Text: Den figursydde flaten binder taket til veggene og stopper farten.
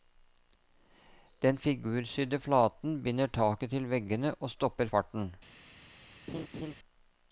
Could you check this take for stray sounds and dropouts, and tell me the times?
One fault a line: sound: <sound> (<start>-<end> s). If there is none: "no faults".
sound: laugh (6.3-6.7 s)